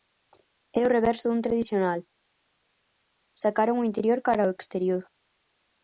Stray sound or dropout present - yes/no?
no